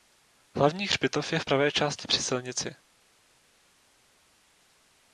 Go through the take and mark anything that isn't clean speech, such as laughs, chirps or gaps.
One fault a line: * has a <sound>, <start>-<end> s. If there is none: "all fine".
all fine